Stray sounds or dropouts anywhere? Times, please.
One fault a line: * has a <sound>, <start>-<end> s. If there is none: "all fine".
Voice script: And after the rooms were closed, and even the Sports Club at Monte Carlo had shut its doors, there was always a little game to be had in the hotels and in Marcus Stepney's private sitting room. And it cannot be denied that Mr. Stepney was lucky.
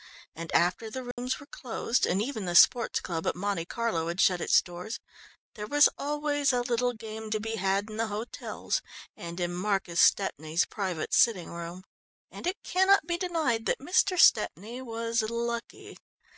* has a dropout, 1.1-1.2 s